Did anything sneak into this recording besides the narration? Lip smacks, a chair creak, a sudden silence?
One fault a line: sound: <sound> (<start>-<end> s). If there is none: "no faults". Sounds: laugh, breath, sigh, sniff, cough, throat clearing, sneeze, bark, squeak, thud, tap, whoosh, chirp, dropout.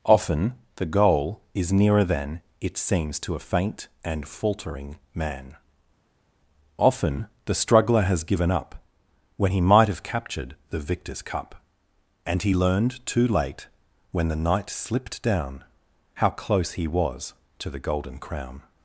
no faults